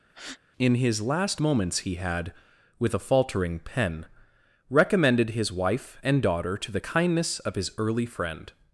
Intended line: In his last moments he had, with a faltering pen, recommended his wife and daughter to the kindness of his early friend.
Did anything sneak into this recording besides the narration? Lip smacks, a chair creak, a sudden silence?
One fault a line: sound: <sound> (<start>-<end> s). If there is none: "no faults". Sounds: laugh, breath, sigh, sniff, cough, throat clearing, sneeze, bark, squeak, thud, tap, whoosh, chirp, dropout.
sound: breath (0.1-0.4 s)